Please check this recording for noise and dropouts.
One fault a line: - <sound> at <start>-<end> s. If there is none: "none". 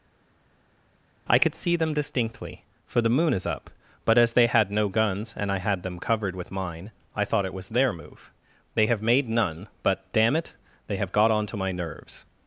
none